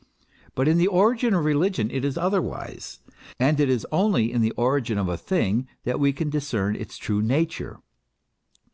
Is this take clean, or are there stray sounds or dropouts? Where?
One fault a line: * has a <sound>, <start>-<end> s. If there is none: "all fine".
all fine